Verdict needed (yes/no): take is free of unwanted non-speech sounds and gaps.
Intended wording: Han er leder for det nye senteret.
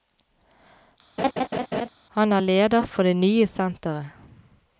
no